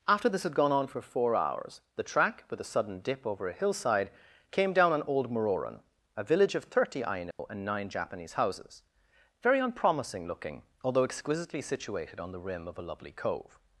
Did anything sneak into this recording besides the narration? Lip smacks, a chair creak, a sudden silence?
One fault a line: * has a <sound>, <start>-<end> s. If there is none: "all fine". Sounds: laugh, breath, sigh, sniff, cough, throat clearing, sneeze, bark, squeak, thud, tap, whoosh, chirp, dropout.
* has a dropout, 7.3-7.4 s